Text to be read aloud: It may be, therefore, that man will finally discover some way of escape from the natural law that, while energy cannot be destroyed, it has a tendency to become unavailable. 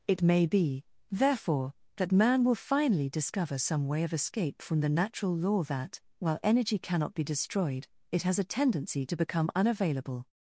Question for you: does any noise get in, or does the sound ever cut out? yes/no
no